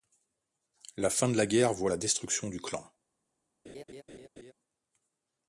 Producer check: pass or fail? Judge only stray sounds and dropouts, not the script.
fail